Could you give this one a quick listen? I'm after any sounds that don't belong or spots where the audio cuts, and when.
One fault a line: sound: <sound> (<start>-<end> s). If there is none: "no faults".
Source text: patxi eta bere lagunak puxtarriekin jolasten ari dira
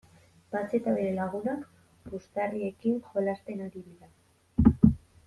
no faults